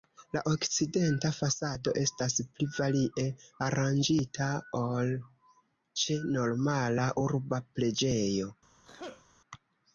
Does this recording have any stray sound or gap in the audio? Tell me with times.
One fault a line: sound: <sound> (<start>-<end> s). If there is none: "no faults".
sound: sneeze (8.8-9.2 s)